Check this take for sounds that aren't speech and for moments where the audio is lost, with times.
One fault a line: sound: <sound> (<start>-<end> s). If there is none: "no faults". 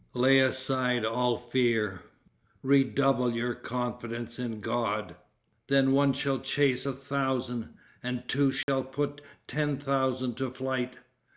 sound: dropout (8.6-8.7 s)